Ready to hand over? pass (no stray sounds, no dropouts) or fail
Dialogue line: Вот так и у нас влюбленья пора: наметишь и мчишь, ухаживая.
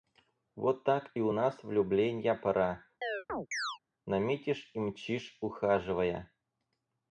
fail